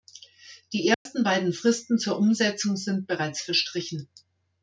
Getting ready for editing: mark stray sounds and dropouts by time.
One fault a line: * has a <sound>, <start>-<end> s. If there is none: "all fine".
* has a dropout, 0.9-1.1 s